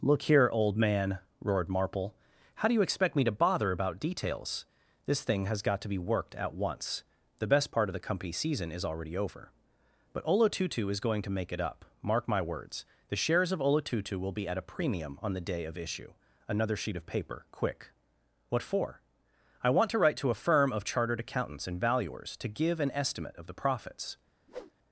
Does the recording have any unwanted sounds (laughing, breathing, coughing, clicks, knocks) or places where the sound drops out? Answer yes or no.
yes